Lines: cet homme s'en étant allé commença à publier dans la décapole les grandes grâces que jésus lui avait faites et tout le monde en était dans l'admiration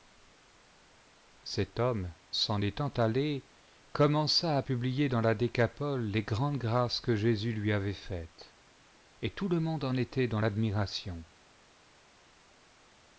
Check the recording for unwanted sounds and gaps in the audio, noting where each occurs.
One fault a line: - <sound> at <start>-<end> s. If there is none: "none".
none